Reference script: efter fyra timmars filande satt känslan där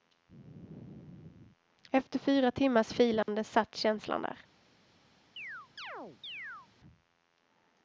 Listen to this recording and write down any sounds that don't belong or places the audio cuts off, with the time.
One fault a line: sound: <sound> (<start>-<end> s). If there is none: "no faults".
sound: dropout (3.2-3.3 s)
sound: chirp (5.4-6.7 s)